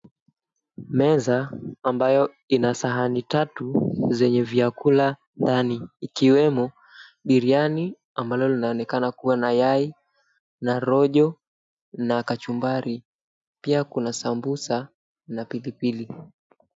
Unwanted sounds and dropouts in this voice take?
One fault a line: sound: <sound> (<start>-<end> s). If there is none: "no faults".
no faults